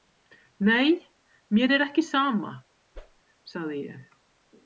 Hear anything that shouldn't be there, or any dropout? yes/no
yes